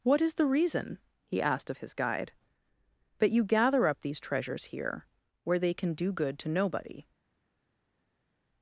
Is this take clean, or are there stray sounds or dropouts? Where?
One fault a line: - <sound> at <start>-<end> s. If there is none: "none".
none